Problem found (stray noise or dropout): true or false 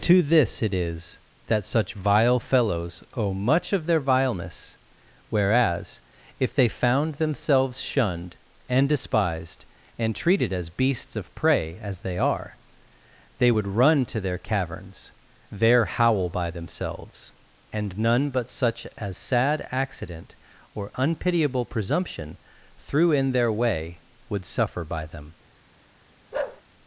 true